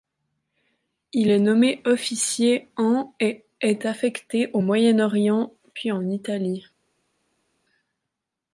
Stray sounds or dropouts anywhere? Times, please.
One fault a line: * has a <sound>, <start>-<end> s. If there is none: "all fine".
all fine